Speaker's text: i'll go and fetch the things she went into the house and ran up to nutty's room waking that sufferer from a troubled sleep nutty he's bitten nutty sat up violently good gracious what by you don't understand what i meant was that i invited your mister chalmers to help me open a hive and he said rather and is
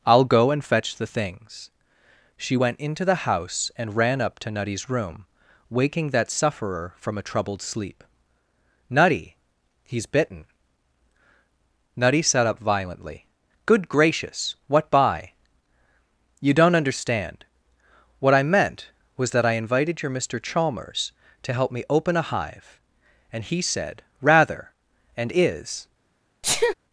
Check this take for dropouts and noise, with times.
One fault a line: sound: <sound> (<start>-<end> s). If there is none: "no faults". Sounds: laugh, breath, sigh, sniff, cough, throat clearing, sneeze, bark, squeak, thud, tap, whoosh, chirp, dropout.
sound: sneeze (26.4-26.7 s)